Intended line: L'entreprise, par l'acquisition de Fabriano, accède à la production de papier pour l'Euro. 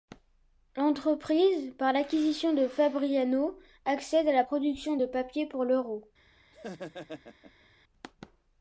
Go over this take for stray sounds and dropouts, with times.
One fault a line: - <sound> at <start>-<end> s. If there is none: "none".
- laugh at 6.5-7.7 s